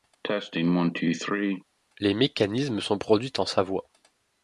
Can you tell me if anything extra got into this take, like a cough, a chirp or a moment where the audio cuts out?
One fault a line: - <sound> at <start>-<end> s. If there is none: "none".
- cough at 0.2-1.6 s